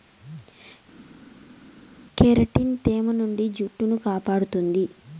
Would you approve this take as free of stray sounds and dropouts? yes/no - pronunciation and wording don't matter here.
yes